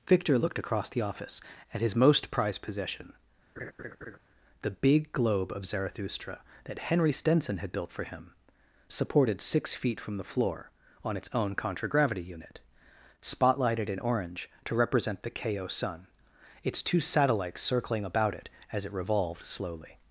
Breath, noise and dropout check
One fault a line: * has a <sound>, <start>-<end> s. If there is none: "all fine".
* has a laugh, 3.6-4.2 s